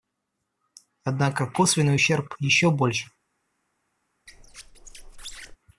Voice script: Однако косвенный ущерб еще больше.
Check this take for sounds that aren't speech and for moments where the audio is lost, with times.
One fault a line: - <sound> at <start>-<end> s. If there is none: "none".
- squeak at 4.3-5.6 s